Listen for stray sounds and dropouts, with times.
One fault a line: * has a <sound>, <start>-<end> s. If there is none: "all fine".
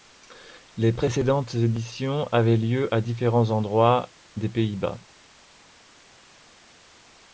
all fine